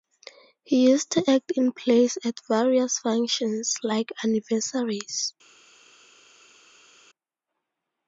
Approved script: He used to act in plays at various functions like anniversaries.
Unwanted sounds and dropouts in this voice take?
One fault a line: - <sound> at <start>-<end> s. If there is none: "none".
none